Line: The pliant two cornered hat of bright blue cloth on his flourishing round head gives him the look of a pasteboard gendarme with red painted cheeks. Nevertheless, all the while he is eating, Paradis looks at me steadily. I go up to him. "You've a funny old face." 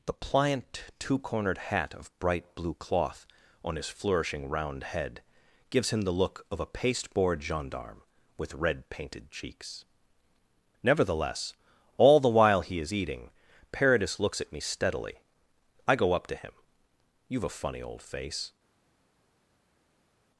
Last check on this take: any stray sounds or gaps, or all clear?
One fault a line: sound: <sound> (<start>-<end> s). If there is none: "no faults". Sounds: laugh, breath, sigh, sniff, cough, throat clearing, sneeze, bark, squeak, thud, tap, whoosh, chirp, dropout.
no faults